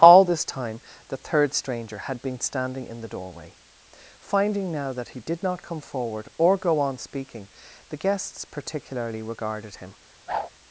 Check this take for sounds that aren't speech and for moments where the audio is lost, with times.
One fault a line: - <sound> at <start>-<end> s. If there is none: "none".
- whoosh at 10.3-10.5 s